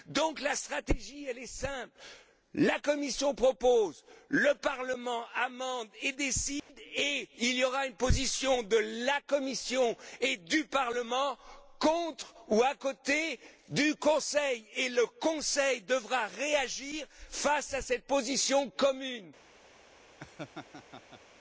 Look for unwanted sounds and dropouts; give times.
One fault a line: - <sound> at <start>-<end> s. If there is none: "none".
- dropout at 6.6-6.7 s
- laugh at 20.2-21.2 s